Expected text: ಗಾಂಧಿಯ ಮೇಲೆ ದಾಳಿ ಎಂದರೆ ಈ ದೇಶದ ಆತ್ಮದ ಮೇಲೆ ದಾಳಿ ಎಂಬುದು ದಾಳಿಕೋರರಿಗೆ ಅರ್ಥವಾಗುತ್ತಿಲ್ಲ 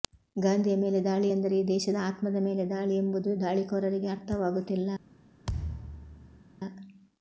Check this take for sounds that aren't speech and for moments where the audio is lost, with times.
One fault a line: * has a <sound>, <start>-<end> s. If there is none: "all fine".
* has a thud, 5.4-6.4 s